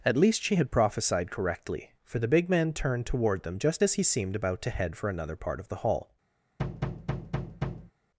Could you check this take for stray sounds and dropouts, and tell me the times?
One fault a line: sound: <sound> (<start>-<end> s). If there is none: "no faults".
sound: thud (6.6-7.9 s)